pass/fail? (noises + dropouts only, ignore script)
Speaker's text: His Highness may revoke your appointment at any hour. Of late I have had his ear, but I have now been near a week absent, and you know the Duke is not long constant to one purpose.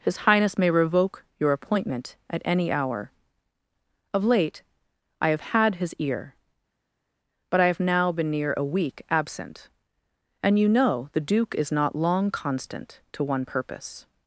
pass